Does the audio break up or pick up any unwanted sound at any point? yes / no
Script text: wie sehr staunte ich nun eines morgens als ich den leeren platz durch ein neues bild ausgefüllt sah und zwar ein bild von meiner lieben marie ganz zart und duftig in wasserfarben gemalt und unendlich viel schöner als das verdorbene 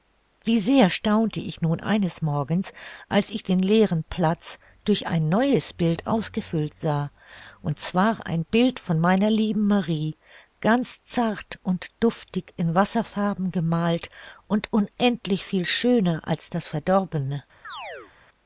yes